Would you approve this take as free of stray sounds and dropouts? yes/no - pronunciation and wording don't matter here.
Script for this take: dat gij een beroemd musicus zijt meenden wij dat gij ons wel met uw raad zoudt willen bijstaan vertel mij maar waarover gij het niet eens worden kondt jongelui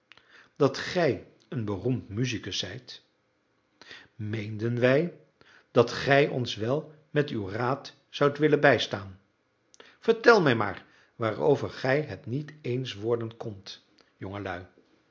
yes